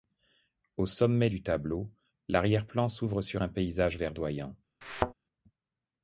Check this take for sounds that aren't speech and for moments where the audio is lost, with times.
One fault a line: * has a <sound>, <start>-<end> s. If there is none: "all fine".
* has a thud, 4.8-5.1 s